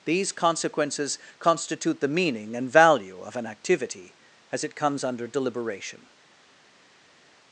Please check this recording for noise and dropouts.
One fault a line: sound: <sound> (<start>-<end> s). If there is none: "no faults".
no faults